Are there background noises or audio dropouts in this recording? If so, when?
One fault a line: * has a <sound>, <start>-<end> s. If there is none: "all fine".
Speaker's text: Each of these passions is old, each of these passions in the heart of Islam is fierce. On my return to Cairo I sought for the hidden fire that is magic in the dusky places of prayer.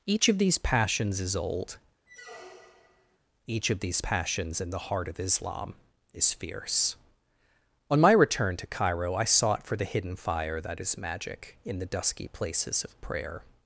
* has a squeak, 2.1-3.2 s